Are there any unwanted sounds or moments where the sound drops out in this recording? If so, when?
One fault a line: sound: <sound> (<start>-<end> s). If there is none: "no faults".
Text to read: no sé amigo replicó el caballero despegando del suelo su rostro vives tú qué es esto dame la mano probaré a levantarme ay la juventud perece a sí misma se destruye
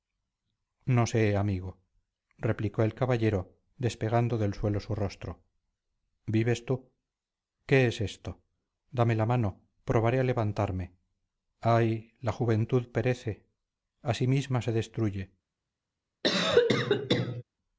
sound: cough (16.2-17.4 s)